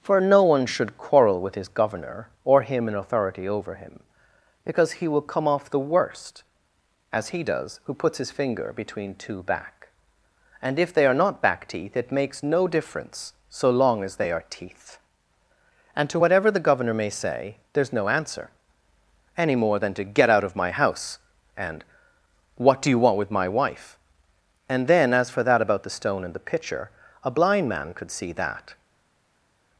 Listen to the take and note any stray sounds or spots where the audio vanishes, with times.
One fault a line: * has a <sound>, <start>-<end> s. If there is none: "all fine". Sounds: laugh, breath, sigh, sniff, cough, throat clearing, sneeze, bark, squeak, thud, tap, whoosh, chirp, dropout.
all fine